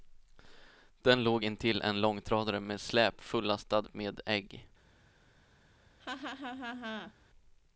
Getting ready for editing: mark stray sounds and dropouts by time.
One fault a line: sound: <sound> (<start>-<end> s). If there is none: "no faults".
sound: laugh (6.0-7.1 s)